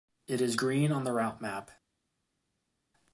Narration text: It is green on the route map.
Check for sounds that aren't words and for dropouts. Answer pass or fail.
pass